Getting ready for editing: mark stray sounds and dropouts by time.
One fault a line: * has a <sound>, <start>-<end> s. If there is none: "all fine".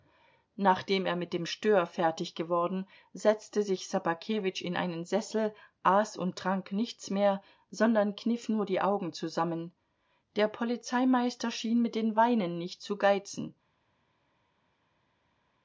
all fine